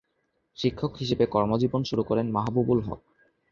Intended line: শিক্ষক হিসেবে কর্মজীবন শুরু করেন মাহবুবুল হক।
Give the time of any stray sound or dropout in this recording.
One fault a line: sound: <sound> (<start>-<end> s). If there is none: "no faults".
no faults